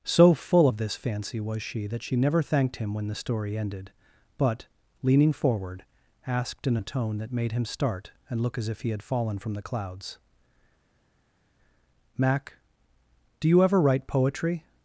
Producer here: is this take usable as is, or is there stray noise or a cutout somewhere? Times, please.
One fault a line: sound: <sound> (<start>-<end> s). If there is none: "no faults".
no faults